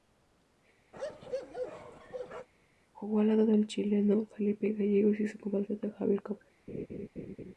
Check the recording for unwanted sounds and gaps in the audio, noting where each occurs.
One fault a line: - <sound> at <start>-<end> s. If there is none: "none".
- bark at 0.9-2.5 s
- laugh at 6.7-7.5 s